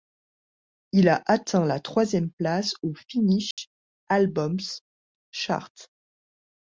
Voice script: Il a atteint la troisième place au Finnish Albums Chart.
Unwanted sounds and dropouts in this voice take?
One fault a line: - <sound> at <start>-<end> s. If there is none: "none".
- dropout at 3.5-3.6 s